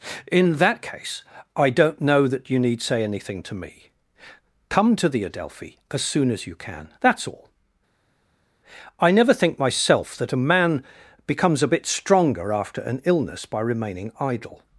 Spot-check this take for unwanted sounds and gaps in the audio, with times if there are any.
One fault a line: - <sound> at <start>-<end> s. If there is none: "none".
none